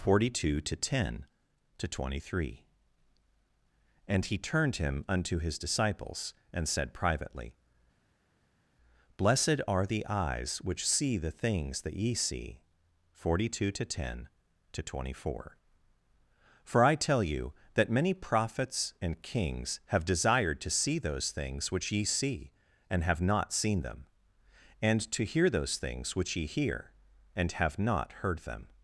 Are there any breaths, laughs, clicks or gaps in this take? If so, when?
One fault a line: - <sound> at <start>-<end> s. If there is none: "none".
none